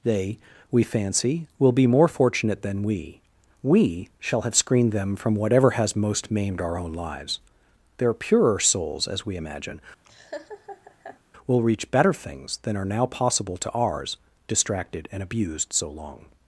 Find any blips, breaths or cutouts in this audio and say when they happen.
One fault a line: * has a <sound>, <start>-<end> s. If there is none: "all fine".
* has a laugh, 10.0-11.2 s